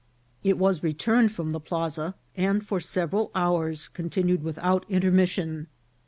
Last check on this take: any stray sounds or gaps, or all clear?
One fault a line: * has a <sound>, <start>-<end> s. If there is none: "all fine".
all fine